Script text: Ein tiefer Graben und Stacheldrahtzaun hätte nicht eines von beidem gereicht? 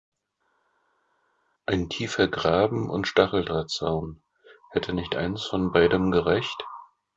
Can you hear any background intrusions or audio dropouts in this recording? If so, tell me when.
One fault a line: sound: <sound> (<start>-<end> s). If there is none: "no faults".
no faults